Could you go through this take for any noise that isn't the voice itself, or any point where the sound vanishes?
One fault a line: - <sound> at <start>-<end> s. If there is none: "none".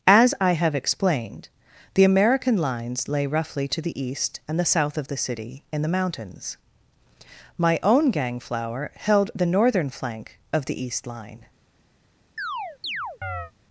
- chirp at 12.4-13.5 s